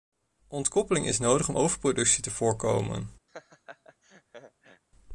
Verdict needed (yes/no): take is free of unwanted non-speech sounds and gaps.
no